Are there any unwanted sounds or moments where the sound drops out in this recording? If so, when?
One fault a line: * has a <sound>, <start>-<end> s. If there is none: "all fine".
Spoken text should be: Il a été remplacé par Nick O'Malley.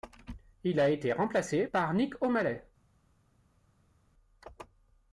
all fine